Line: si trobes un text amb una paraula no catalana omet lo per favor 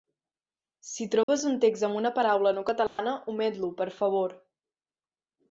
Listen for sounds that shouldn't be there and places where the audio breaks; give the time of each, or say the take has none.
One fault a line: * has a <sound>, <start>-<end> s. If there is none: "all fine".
* has a dropout, 1.2-1.3 s
* has a dropout, 2.9-3.0 s